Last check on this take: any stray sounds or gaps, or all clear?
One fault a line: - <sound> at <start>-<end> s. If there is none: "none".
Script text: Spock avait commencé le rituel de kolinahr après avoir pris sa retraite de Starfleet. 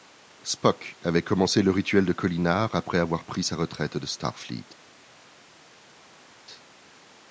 none